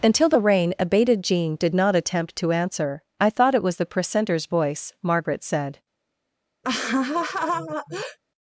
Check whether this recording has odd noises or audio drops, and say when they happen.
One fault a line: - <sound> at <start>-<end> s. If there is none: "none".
- laugh at 6.6-8.2 s